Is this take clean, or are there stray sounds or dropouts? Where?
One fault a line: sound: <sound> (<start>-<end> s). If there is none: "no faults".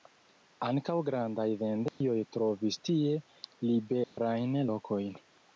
sound: dropout (1.9-2.0 s)
sound: dropout (4.0-4.2 s)